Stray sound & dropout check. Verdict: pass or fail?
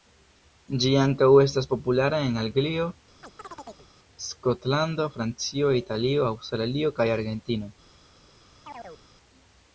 fail